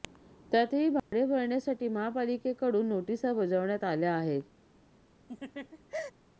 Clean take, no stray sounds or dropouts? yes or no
no